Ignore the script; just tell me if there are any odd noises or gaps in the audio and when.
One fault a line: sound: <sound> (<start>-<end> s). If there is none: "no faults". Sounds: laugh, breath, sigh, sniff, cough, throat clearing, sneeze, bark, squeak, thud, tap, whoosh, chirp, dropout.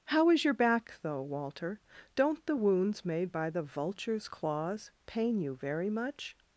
no faults